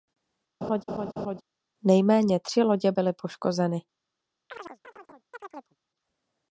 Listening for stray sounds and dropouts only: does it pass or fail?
fail